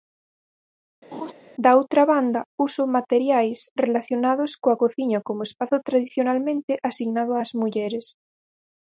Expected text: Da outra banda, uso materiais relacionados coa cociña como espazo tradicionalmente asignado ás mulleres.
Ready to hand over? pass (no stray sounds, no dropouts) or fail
fail